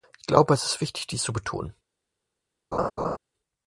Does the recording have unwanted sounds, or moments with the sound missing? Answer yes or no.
yes